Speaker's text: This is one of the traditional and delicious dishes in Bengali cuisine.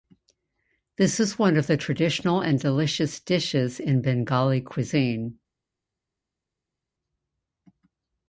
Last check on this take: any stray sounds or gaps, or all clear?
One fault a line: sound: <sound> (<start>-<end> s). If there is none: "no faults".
no faults